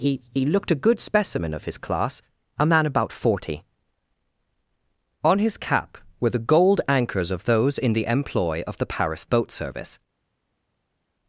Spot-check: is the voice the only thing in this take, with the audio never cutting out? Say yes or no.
yes